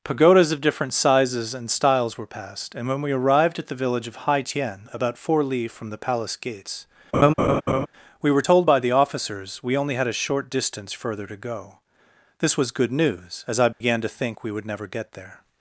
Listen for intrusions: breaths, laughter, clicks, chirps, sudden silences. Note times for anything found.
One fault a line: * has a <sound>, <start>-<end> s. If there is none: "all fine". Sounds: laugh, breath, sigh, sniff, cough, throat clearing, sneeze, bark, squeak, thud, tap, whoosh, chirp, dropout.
* has a laugh, 7.1-7.9 s
* has a dropout, 13.7-13.8 s